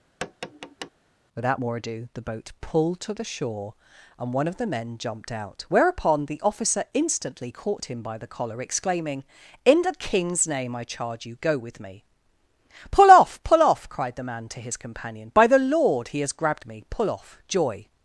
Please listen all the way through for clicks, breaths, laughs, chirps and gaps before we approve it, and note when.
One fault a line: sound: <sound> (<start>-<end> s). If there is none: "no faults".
sound: tap (0.2-0.9 s)